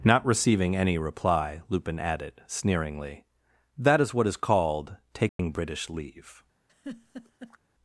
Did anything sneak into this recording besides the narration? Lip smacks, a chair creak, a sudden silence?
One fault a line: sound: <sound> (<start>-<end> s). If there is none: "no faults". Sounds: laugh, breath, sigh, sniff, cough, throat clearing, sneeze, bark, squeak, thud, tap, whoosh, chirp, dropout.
sound: dropout (5.3-5.4 s)
sound: laugh (6.7-7.6 s)